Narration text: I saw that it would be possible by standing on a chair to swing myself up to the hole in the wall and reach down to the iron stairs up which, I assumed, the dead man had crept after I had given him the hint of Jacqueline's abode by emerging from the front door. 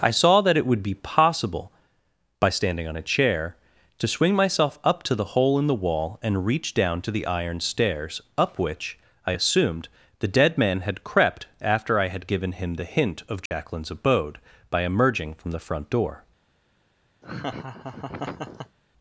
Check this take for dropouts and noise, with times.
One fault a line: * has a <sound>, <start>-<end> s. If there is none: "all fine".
* has a dropout, 13.5-13.5 s
* has a laugh, 17.2-18.8 s